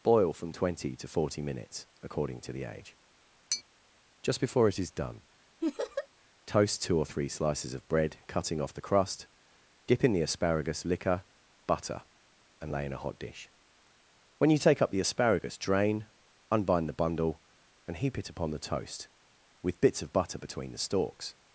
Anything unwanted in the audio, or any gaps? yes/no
yes